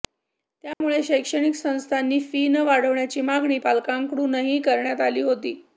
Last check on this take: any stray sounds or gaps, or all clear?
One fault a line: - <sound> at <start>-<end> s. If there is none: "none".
- dropout at 0.7-0.8 s